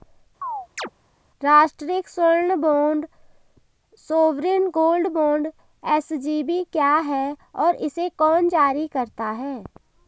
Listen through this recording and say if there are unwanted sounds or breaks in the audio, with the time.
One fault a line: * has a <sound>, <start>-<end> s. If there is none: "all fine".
* has a chirp, 0.4-0.9 s